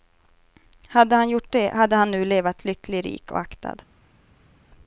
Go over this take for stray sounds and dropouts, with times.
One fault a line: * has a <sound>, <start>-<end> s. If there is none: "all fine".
all fine